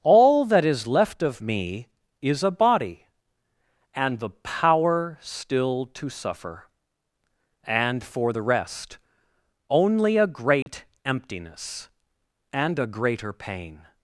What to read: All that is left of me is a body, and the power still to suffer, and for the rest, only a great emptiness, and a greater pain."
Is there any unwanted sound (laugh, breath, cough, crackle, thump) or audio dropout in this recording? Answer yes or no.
yes